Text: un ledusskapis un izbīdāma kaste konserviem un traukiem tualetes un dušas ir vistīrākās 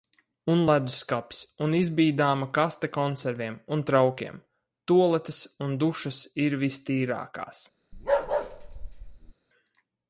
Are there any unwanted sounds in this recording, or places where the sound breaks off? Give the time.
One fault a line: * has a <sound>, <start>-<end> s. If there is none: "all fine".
* has a bark, 7.9-9.3 s